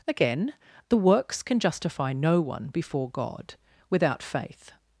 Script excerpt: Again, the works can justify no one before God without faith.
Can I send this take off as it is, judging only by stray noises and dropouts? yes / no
yes